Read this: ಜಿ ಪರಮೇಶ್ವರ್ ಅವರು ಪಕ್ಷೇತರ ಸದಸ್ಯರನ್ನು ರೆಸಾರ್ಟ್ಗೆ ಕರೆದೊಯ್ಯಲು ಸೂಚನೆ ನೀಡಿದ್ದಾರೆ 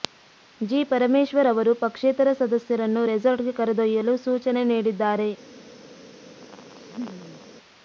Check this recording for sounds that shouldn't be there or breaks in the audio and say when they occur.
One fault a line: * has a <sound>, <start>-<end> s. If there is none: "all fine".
* has a laugh, 6.4-7.5 s